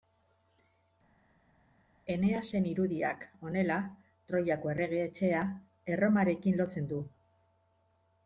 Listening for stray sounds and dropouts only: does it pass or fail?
pass